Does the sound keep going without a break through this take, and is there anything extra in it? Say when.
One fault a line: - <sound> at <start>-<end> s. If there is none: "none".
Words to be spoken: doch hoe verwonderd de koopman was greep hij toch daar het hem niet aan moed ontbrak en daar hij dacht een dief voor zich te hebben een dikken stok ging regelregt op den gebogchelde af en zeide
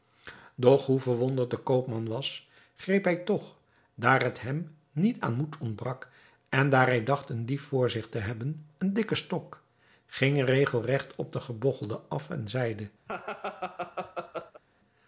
- laugh at 13.1-14.6 s